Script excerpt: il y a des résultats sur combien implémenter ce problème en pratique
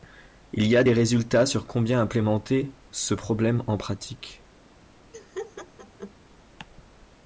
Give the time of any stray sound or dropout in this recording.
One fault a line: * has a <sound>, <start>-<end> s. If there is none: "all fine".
* has a laugh, 5.1-6.1 s